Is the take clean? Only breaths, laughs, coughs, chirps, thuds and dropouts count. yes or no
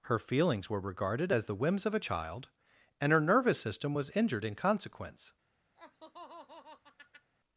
no